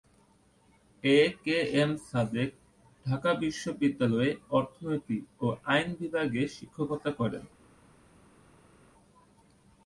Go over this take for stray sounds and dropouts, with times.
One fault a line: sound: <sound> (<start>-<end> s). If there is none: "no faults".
no faults